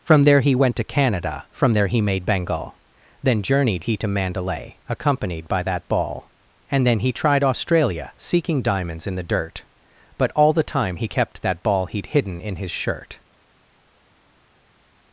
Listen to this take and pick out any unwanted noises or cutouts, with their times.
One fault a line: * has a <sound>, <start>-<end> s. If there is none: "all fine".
all fine